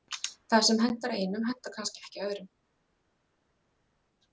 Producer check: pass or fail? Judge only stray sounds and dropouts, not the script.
pass